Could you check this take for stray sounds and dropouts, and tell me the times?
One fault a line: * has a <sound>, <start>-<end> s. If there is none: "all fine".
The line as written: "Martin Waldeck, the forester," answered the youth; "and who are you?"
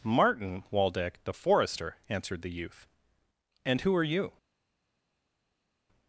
all fine